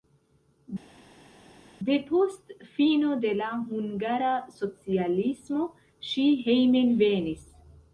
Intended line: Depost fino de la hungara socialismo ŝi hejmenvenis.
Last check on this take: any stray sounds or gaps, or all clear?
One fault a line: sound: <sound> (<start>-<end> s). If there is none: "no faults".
no faults